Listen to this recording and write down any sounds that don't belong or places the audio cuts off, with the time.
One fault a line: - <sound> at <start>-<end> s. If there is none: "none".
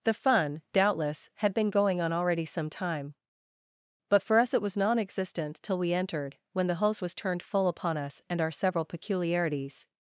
none